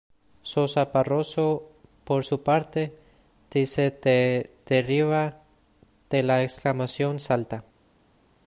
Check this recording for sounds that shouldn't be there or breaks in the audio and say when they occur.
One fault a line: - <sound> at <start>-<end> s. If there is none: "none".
none